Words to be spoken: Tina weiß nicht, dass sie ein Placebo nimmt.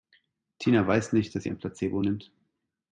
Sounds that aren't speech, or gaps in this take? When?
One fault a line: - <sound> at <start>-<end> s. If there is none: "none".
none